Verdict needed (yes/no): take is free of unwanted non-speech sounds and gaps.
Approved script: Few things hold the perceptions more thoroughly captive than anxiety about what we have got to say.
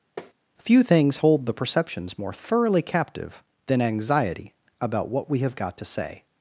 no